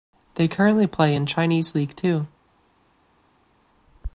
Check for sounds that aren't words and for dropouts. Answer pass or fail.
pass